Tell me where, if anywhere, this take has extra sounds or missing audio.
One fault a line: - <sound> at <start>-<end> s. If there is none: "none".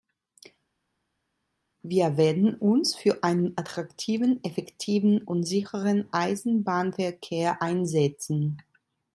none